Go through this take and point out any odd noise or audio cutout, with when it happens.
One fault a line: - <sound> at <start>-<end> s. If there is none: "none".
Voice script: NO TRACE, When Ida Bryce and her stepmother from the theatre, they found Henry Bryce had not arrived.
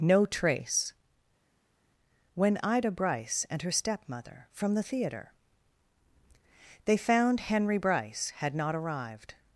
none